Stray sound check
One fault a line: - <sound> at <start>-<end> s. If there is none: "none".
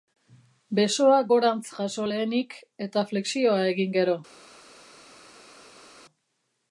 none